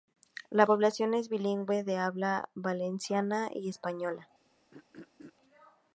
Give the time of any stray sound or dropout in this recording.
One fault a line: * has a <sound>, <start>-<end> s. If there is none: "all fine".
* has a throat clearing, 4.7-5.3 s